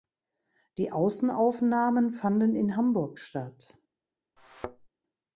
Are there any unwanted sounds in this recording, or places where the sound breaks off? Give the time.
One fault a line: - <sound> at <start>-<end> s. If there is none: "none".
- thud at 4.4-4.9 s